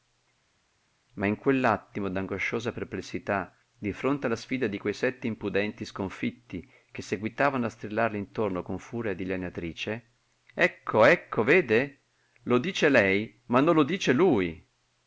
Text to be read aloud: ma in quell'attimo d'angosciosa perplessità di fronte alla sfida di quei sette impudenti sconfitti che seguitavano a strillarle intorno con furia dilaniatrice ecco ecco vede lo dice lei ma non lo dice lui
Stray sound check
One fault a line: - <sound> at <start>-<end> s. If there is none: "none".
none